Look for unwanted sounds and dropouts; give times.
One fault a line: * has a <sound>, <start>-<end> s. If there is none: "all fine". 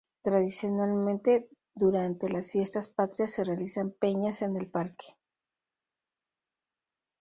all fine